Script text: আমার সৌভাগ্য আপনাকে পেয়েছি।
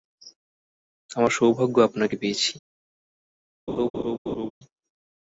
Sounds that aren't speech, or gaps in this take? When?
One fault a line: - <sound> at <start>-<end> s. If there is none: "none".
- laugh at 3.7-4.5 s